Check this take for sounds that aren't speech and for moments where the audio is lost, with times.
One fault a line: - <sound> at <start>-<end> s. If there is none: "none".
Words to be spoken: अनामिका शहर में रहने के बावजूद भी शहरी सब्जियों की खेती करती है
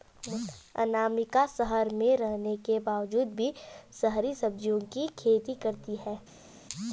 none